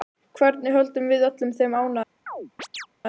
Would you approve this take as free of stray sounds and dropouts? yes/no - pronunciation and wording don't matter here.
no